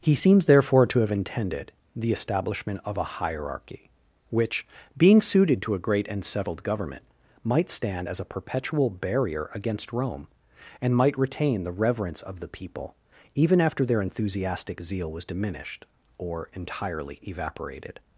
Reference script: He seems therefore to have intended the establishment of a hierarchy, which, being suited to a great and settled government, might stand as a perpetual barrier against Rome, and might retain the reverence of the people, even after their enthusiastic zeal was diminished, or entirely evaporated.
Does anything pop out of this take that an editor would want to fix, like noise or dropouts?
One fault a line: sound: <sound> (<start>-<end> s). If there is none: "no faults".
no faults